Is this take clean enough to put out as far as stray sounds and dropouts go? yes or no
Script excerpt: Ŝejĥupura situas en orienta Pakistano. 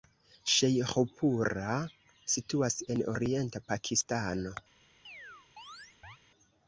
no